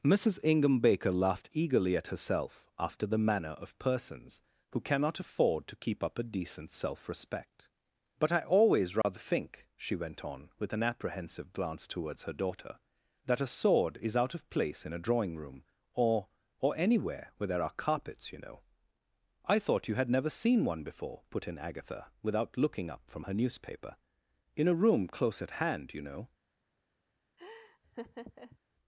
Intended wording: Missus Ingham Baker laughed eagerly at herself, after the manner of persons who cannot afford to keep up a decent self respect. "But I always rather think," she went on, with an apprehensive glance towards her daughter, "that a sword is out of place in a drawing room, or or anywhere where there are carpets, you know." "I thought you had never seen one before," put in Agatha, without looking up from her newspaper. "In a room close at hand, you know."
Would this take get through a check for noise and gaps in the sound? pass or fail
fail